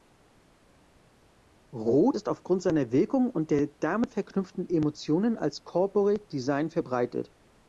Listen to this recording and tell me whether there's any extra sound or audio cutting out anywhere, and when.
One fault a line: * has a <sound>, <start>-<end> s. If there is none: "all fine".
all fine